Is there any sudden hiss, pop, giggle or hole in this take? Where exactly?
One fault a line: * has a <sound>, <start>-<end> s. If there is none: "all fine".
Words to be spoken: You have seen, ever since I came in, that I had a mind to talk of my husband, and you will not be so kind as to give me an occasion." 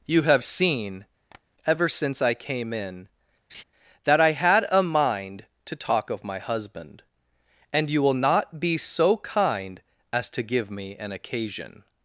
* has a tap, 1.3-1.4 s
* has a laugh, 3.5-3.6 s